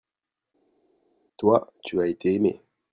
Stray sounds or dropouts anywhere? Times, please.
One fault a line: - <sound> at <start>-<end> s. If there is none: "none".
none